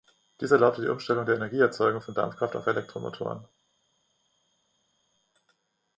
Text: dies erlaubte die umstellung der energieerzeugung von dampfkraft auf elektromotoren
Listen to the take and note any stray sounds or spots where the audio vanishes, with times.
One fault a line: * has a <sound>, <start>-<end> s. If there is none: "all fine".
all fine